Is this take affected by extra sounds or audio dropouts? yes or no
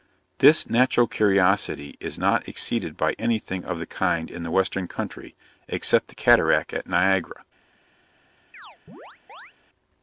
yes